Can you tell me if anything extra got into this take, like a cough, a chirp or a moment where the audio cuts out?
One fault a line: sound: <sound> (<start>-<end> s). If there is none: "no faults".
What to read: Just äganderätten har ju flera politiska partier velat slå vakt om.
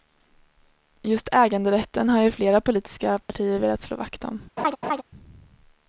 sound: dropout (3.2-3.3 s)
sound: laugh (4.6-5.0 s)